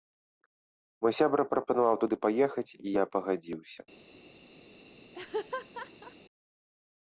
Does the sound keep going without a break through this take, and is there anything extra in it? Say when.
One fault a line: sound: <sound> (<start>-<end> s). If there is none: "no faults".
sound: laugh (5.1-6.2 s)